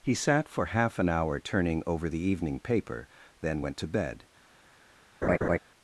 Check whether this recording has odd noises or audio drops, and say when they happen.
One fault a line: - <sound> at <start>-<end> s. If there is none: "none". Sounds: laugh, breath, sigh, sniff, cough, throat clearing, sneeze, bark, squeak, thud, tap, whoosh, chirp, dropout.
- laugh at 5.2-5.6 s